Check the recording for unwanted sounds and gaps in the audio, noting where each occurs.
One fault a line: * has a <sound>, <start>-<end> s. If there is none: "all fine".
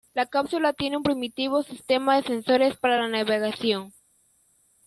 all fine